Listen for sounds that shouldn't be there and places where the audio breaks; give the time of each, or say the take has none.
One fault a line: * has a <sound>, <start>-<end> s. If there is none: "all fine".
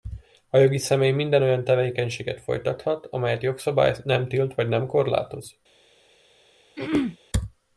* has a throat clearing, 6.8-7.2 s